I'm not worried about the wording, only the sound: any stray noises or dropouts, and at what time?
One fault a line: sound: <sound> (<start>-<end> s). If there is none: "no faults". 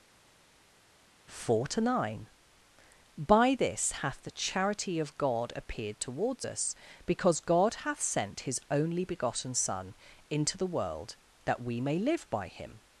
no faults